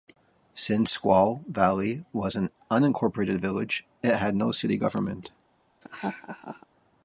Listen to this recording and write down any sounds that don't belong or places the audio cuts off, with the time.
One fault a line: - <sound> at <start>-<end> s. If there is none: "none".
- laugh at 5.8-6.7 s